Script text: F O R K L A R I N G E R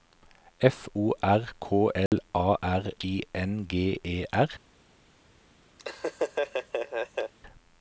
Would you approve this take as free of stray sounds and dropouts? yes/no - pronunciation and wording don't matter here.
no